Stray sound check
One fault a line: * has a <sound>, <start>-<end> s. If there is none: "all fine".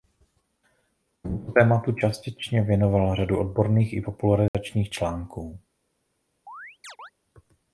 * has a dropout, 4.5-4.5 s
* has a chirp, 6.5-7.1 s